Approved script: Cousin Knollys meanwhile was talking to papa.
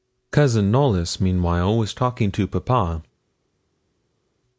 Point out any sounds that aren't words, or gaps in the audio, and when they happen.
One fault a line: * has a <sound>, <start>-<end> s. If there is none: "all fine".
all fine